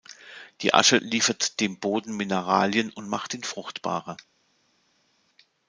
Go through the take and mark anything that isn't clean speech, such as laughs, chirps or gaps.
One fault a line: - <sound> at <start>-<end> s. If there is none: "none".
none